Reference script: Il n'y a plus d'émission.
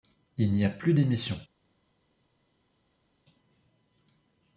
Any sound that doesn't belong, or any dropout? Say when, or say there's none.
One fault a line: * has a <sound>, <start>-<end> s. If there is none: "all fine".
all fine